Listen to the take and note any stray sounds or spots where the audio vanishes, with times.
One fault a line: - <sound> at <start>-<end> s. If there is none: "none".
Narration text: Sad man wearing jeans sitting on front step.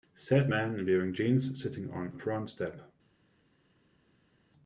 none